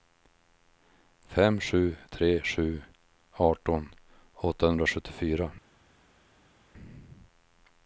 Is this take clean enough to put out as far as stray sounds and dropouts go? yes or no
yes